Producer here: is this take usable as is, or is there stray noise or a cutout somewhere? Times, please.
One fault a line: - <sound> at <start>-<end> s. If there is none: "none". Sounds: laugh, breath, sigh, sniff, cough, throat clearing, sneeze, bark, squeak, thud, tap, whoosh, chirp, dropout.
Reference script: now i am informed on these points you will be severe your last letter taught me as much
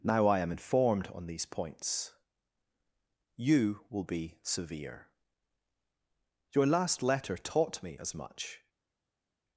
none